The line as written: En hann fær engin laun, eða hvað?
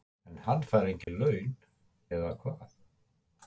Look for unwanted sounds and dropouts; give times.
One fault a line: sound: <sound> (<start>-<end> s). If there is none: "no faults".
sound: dropout (1.0-1.1 s)